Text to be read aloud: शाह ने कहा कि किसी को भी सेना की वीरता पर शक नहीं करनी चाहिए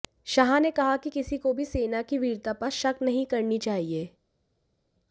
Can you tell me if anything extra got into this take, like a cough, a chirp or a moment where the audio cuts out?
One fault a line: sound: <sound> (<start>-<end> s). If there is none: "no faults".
no faults